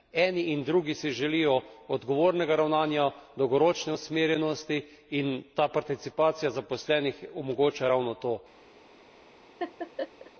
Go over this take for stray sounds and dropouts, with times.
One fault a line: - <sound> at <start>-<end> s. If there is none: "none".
- laugh at 9.6-10.3 s